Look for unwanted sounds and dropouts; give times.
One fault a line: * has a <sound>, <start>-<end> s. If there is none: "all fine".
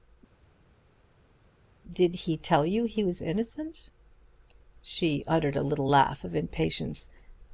all fine